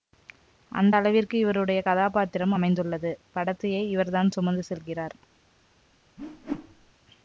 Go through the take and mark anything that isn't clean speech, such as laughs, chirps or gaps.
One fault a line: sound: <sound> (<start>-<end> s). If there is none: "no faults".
sound: whoosh (6.2-6.9 s)